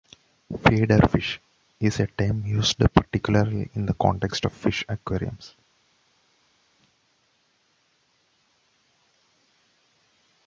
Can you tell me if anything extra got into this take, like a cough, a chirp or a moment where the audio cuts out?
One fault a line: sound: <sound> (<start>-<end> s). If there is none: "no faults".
no faults